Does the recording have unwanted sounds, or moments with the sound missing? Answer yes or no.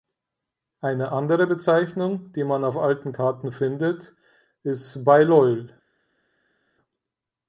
no